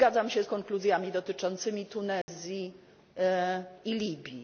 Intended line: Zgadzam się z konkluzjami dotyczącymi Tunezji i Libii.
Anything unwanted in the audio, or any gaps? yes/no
yes